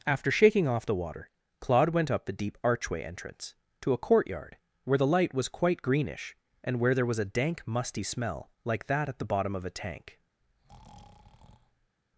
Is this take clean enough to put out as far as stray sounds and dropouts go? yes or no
no